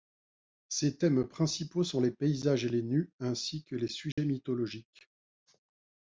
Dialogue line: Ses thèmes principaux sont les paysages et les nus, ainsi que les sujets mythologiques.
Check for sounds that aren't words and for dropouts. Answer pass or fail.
fail